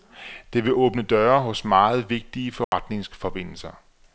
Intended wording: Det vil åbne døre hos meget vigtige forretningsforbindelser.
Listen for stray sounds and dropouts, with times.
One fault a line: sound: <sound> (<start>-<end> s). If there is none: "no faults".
sound: dropout (2.6-2.7 s)